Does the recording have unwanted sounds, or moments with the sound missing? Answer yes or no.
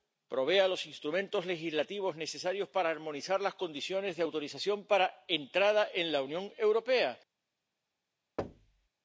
yes